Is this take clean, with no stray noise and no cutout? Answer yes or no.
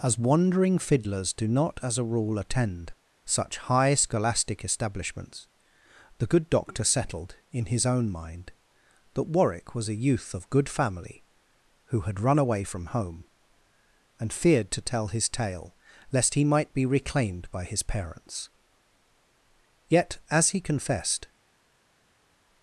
yes